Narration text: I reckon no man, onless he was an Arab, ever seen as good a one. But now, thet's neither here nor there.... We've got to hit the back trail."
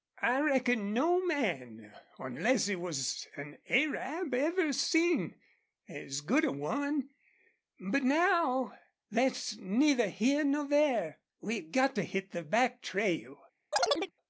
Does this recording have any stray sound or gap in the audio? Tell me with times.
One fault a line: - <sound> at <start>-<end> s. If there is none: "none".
- chirp at 13.7-14.1 s